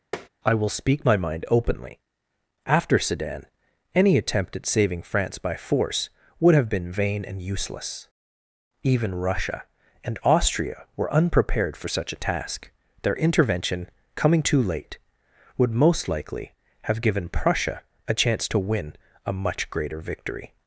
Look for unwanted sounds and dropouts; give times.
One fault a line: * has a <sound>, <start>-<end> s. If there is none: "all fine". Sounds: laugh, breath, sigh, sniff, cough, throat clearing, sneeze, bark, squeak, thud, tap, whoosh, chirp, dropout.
* has a tap, 0.1-0.3 s